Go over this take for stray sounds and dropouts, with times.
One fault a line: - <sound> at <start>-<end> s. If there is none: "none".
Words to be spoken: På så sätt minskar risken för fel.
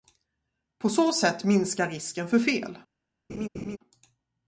- laugh at 3.3-3.8 s